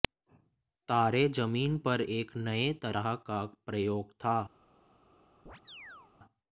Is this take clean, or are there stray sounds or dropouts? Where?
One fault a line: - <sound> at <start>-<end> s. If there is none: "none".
- chirp at 5.5-6.1 s